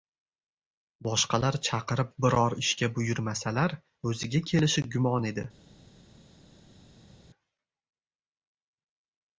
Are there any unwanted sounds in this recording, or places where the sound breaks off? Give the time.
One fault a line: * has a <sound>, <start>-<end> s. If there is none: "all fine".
all fine